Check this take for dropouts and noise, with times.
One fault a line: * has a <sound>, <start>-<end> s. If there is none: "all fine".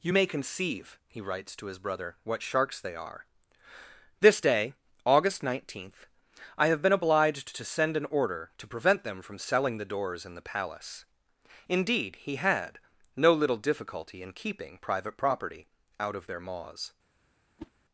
* has a whoosh, 17.6-17.7 s